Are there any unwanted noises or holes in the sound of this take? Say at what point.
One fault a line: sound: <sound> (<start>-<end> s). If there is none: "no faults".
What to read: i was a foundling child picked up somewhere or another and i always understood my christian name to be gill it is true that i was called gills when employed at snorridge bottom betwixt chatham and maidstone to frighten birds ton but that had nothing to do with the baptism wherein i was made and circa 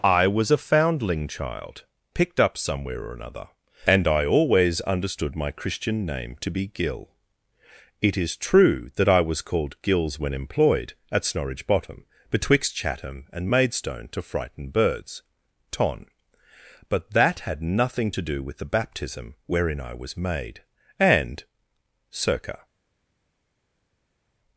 no faults